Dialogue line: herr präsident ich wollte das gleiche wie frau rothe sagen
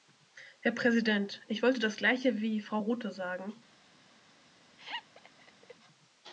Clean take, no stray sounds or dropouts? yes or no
no